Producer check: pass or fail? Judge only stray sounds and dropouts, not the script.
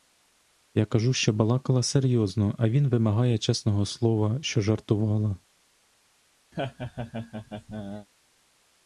fail